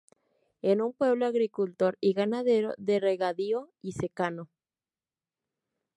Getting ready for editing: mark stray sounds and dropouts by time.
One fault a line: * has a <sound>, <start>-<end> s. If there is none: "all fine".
all fine